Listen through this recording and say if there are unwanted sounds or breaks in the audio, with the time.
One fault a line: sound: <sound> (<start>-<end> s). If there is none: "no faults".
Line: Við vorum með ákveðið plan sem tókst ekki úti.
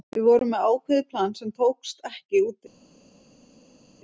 no faults